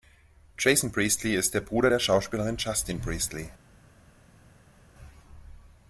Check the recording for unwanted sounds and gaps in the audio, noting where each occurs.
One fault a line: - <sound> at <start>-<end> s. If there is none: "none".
none